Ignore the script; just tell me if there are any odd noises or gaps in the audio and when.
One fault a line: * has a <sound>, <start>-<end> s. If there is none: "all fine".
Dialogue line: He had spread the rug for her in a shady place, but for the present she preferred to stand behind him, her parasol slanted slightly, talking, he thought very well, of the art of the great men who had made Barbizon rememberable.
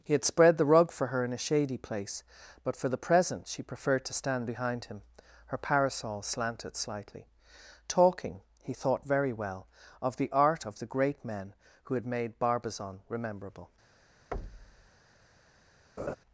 * has a thud, 14.3-14.9 s
* has a laugh, 16.0-16.2 s